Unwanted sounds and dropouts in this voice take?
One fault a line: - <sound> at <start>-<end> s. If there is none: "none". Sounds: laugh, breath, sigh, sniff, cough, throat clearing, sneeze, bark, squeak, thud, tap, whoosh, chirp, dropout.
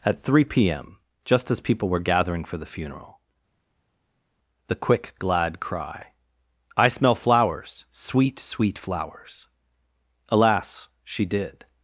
none